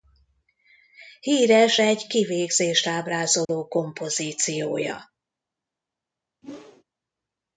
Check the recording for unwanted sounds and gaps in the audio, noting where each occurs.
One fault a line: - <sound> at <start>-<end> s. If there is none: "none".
- dropout at 3.4-3.5 s
- whoosh at 6.4-6.8 s